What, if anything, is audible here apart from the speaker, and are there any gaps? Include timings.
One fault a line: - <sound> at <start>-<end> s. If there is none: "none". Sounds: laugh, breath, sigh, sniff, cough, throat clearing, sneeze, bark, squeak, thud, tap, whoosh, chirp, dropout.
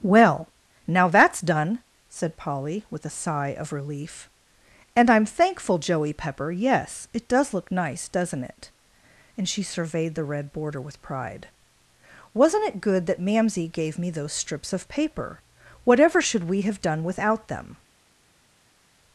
none